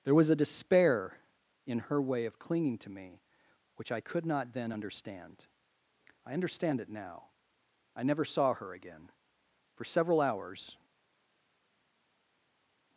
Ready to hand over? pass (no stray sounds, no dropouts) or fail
pass